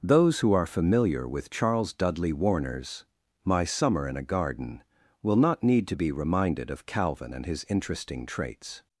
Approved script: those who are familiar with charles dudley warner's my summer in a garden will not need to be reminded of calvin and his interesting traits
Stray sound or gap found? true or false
false